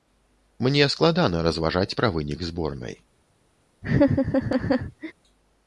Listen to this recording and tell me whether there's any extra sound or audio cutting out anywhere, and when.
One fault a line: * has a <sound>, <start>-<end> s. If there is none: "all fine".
* has a laugh, 3.8-5.1 s